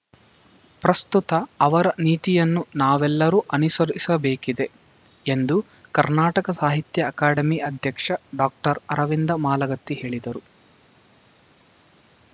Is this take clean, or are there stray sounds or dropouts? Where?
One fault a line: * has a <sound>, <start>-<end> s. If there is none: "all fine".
all fine